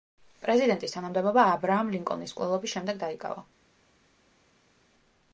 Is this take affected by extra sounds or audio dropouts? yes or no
no